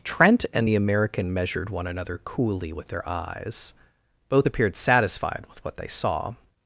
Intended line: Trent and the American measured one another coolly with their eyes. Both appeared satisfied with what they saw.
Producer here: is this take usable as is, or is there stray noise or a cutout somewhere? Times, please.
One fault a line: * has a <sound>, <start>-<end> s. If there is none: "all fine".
all fine